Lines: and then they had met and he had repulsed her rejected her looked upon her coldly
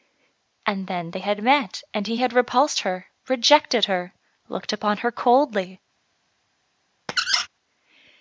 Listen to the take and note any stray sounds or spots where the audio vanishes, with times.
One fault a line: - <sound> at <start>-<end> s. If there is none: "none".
- squeak at 7.1-7.5 s